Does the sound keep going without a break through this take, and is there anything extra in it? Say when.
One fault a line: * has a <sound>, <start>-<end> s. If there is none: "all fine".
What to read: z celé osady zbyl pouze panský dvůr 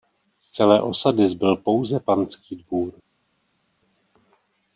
all fine